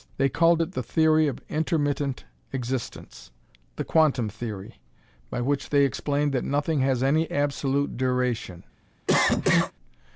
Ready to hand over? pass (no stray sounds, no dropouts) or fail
fail